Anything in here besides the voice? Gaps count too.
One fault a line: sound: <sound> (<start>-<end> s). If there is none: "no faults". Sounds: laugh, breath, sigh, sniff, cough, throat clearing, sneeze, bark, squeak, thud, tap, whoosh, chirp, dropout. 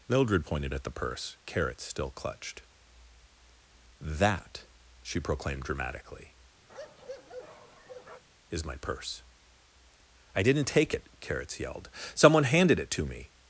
sound: bark (6.7-8.2 s)